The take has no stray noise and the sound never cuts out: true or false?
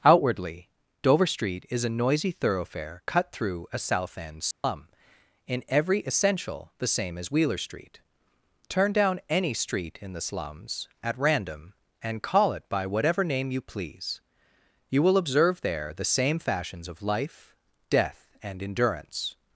false